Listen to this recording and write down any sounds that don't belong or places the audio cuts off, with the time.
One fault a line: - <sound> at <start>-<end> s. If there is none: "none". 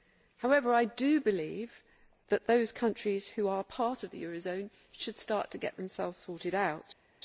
none